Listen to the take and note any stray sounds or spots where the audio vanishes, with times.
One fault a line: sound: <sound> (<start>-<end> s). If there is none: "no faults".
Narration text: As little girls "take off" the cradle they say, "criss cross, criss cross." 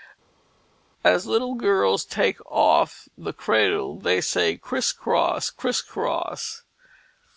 no faults